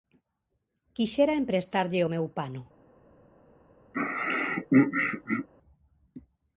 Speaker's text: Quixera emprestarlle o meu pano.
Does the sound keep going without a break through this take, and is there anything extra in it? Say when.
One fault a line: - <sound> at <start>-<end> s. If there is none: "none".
- throat clearing at 3.9-5.5 s